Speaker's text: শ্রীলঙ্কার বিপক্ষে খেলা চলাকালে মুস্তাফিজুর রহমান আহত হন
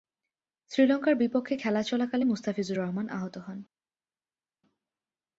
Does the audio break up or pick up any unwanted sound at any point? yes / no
no